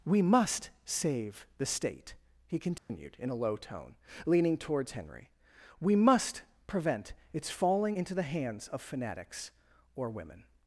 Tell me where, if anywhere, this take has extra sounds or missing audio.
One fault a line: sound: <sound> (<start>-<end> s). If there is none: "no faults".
sound: dropout (2.8-2.9 s)